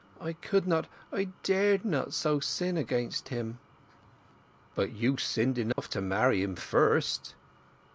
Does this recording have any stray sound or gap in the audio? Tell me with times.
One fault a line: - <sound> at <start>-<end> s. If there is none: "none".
- dropout at 5.7-5.8 s